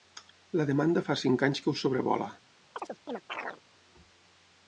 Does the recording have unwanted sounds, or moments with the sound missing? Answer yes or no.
yes